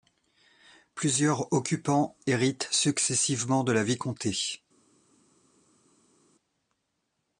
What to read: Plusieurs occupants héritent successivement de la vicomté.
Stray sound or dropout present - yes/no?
no